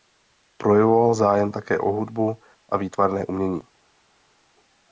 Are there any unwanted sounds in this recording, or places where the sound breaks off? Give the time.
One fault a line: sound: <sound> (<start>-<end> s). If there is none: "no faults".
no faults